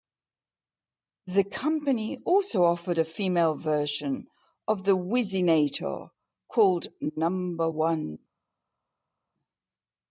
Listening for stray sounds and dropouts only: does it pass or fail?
pass